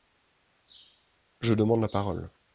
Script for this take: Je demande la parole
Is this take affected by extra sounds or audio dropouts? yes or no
no